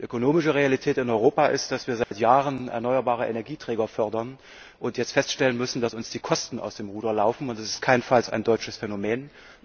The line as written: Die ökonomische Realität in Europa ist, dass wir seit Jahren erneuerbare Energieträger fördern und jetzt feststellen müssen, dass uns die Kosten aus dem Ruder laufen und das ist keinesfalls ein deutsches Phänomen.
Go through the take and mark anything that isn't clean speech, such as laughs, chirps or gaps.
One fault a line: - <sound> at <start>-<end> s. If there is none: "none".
- dropout at 2.0-2.1 s